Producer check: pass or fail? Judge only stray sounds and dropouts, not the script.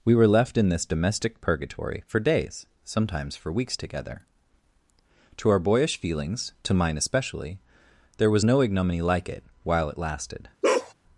fail